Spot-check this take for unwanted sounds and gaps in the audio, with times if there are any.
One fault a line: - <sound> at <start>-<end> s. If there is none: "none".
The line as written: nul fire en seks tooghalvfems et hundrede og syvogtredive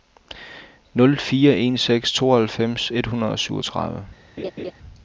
- laugh at 4.4-4.7 s